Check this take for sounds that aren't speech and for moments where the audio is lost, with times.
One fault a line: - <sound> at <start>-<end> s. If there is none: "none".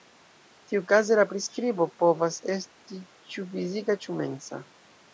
none